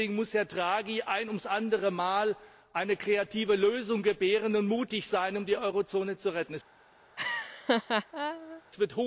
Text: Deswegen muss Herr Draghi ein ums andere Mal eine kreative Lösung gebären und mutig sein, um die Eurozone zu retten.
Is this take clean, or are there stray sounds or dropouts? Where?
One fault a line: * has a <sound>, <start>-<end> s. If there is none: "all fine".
* has a laugh, 7.2-8.6 s